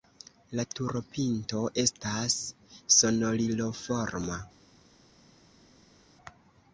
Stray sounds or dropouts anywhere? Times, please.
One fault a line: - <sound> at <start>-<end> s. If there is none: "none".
none